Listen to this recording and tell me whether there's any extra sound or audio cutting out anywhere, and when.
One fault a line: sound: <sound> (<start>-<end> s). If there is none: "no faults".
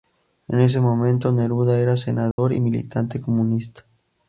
sound: dropout (2.3-2.4 s)